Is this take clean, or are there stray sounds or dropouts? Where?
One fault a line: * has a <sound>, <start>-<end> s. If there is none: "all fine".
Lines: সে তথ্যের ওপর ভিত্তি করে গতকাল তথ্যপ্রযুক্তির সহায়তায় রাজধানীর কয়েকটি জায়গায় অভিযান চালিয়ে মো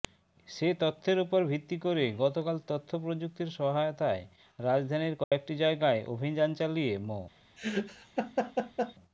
* has a dropout, 5.2-5.3 s
* has a laugh, 7.6-8.9 s